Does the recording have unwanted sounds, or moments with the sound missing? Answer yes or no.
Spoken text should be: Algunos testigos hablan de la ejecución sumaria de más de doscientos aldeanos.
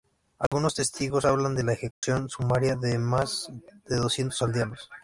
yes